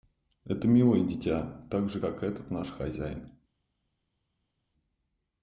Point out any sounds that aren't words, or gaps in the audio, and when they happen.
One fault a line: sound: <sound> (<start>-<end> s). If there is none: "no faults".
no faults